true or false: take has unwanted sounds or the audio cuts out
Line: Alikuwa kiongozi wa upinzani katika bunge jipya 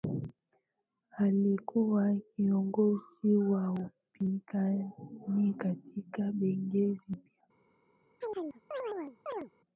true